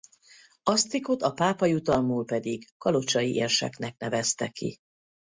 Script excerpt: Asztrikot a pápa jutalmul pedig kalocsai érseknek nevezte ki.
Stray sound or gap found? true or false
false